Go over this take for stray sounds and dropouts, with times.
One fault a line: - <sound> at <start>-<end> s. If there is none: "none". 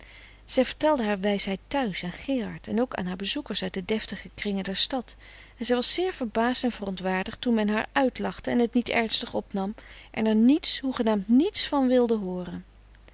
none